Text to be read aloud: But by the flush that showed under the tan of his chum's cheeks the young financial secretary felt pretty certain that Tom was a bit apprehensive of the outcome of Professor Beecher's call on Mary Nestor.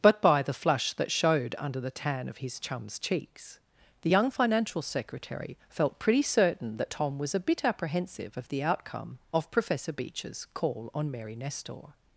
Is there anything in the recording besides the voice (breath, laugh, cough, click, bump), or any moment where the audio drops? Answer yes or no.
no